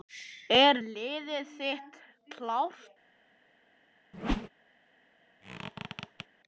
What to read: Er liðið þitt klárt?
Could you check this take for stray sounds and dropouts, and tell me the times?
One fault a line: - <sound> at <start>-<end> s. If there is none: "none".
- whoosh at 4.1-4.5 s
- squeak at 5.4-6.3 s